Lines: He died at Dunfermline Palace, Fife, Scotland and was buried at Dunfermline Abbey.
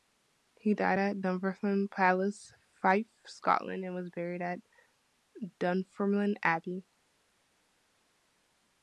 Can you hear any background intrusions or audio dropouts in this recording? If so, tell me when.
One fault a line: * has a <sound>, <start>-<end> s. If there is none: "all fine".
all fine